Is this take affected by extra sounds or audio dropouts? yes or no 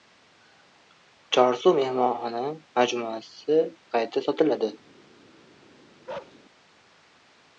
yes